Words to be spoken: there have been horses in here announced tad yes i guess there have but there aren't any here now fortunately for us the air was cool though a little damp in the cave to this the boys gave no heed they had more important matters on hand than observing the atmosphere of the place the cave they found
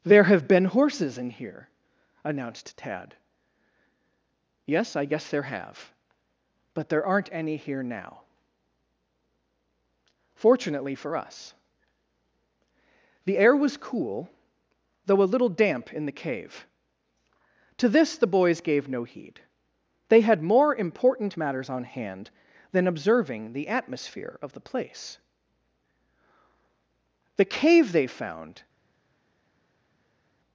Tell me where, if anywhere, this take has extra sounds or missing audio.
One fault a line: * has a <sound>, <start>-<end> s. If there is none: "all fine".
all fine